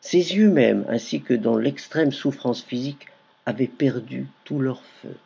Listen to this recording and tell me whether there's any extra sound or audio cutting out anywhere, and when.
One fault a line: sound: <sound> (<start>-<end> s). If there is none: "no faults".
no faults